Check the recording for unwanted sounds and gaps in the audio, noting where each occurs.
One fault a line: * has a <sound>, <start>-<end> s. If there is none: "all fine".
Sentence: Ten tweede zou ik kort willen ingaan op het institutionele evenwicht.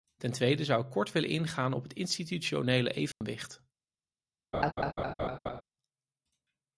* has a dropout, 3.1-3.2 s
* has a laugh, 4.5-5.6 s